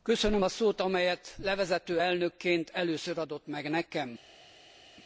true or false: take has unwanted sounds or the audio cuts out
false